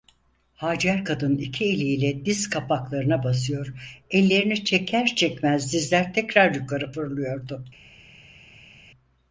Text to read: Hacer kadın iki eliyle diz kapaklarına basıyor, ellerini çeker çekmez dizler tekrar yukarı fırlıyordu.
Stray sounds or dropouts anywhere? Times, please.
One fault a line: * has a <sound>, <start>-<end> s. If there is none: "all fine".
all fine